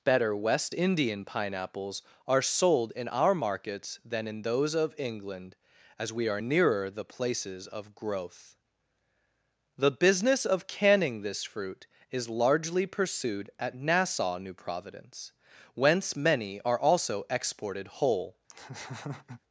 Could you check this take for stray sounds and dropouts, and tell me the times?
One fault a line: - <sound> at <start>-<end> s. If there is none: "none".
- laugh at 18.5-19.4 s